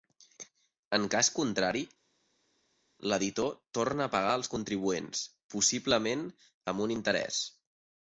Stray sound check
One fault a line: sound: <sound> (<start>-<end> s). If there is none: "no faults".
no faults